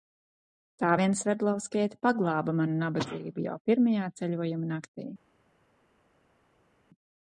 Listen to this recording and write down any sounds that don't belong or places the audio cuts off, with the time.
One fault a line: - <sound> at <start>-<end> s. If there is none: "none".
none